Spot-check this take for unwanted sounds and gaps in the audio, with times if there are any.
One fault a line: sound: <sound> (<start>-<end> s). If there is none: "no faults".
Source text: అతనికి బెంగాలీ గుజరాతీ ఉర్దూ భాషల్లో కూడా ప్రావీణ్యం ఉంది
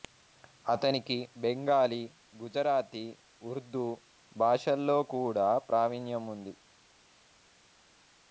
no faults